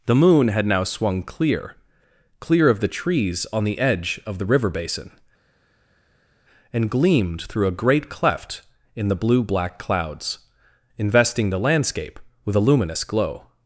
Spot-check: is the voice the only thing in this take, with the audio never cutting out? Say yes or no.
yes